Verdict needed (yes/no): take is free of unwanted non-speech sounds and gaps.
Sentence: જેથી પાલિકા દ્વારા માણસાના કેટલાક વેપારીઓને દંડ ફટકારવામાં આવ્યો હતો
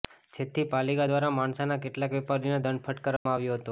no